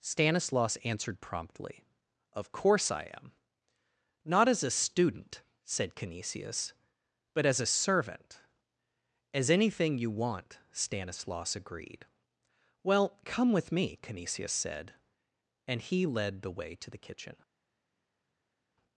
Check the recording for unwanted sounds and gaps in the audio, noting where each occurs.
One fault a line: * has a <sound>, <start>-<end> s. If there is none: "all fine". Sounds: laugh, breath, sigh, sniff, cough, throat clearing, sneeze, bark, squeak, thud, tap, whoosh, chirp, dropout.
all fine